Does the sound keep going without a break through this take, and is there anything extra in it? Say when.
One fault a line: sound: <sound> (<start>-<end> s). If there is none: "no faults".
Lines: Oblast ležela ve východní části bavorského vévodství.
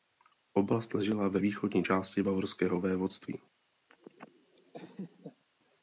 sound: laugh (3.9-5.4 s)